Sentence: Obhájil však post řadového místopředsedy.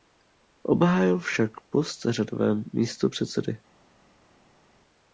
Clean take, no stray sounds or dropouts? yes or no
yes